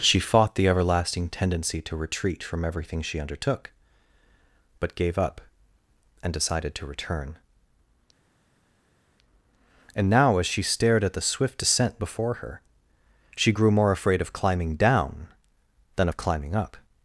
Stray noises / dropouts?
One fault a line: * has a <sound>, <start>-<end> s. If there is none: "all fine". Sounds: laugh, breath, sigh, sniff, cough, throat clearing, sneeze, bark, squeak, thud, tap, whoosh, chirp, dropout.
all fine